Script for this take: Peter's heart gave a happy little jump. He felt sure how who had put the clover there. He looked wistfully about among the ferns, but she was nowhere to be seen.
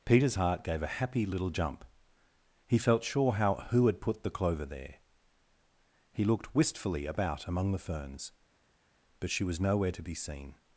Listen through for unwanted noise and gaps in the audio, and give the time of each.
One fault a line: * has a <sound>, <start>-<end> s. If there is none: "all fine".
all fine